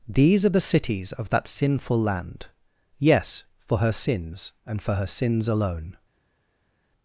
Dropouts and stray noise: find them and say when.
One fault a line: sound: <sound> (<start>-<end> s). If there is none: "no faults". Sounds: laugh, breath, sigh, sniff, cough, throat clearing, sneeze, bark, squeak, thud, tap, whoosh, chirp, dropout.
no faults